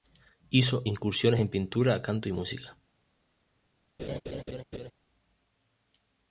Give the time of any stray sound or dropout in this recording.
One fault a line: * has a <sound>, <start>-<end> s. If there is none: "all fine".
* has a laugh, 4.0-4.9 s